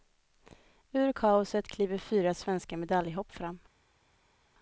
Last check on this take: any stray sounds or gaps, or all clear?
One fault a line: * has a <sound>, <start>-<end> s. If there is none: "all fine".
all fine